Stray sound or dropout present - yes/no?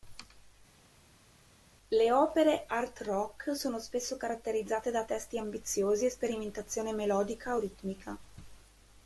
no